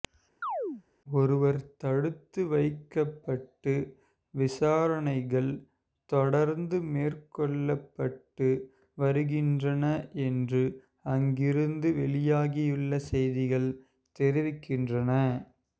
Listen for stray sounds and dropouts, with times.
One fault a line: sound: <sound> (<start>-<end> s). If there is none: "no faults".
sound: chirp (0.4-0.8 s)